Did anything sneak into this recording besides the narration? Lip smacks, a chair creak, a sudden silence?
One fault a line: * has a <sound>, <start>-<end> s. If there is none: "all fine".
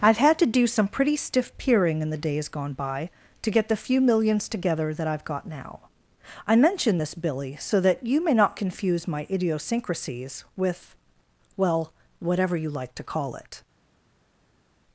all fine